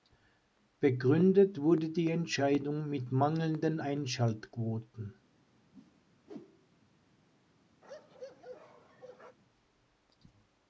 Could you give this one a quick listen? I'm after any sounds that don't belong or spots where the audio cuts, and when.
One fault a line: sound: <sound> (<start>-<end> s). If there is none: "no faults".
sound: whoosh (5.7-6.8 s)
sound: bark (7.8-9.4 s)